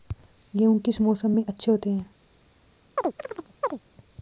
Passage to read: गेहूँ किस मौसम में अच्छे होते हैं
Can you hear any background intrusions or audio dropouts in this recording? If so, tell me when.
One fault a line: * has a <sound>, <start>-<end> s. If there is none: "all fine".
* has a chirp, 3.0-3.8 s